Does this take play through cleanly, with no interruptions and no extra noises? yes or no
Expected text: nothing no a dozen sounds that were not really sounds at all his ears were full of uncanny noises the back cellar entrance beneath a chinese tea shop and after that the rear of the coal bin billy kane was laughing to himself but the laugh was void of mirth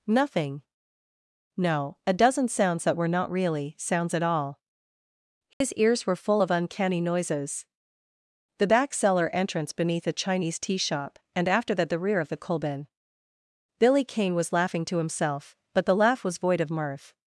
no